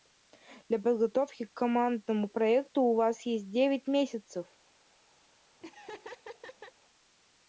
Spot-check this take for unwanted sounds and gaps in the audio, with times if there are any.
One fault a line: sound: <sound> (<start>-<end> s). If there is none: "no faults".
sound: laugh (5.6-6.7 s)